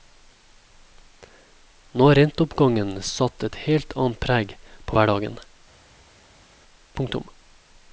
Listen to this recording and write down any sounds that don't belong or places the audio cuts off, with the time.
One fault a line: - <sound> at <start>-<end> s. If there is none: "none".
none